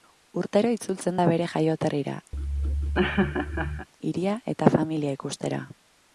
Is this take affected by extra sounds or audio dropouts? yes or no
yes